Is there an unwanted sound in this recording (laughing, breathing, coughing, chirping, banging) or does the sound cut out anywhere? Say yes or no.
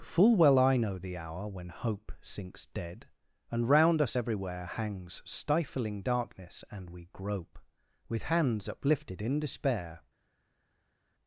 no